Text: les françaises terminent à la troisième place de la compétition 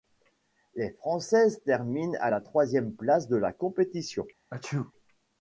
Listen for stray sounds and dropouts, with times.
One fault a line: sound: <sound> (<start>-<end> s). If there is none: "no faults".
sound: sneeze (4.5-4.9 s)